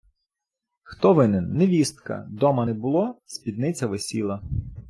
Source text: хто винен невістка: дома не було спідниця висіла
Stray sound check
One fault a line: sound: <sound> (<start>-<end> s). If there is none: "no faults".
no faults